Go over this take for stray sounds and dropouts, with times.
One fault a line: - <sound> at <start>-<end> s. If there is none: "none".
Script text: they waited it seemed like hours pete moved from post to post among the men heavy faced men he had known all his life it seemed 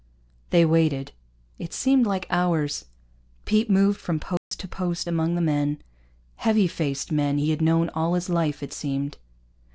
- dropout at 4.4-4.5 s